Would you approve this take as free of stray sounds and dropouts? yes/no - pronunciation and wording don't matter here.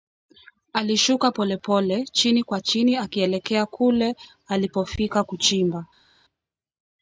yes